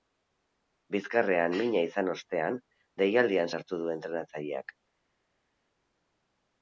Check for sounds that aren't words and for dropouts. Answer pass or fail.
pass